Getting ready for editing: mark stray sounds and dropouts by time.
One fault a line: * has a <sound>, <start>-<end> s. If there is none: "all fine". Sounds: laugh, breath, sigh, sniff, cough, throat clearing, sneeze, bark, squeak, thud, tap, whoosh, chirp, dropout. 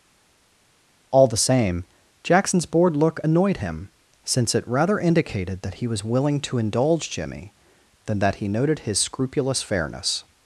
all fine